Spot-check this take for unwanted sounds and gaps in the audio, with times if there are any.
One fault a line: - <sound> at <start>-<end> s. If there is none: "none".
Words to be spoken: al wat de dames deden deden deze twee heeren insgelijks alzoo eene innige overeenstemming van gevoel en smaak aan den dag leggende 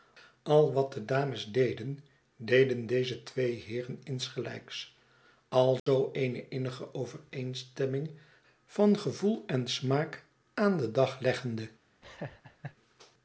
- dropout at 5.8-5.9 s
- laugh at 12.0-12.8 s